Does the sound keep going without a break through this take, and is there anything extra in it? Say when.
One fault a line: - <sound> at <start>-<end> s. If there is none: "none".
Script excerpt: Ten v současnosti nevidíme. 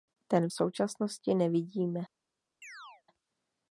- chirp at 2.6-3.0 s